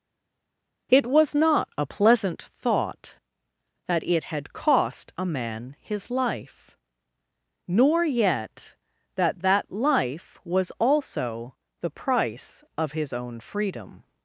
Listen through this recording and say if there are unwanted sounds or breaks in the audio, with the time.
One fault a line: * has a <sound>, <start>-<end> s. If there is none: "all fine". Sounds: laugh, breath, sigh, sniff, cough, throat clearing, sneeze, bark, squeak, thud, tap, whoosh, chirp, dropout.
all fine